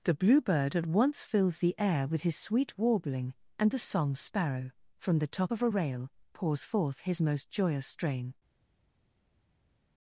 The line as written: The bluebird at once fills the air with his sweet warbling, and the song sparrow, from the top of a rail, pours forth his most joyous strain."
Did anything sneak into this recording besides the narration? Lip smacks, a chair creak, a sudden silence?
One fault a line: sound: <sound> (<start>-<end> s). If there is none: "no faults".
no faults